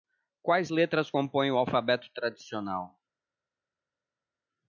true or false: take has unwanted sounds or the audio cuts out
false